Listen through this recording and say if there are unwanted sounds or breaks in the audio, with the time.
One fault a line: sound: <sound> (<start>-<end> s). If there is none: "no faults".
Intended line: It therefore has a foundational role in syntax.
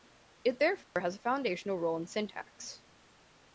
sound: dropout (0.8-1.0 s)